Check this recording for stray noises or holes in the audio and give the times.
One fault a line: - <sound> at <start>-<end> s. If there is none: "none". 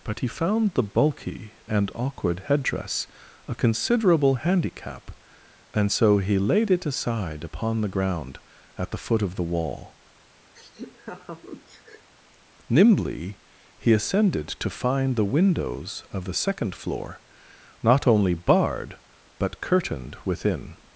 - laugh at 10.6-12.1 s